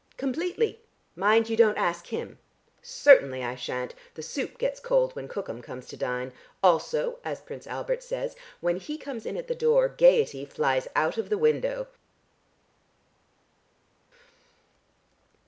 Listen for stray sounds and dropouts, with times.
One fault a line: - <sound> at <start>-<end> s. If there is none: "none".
none